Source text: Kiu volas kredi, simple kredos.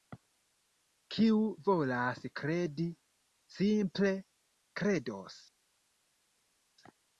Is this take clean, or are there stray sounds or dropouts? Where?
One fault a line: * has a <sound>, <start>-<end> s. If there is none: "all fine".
all fine